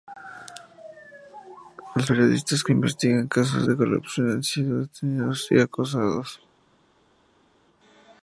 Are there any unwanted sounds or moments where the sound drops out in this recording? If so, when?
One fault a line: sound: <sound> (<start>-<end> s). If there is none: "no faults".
no faults